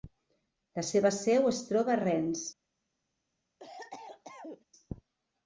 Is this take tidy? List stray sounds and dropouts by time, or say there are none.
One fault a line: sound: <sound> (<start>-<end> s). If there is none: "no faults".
sound: cough (3.6-4.6 s)